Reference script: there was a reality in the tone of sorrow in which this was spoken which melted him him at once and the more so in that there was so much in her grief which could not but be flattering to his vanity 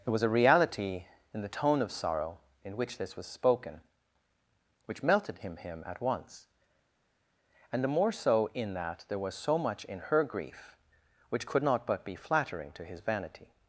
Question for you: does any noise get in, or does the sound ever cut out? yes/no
no